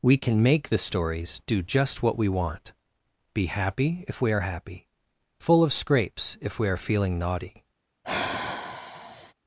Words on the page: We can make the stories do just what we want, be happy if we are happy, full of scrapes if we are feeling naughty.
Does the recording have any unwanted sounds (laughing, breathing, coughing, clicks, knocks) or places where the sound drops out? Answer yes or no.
yes